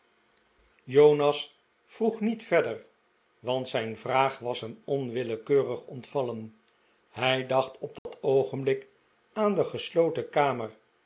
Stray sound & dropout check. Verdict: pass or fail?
fail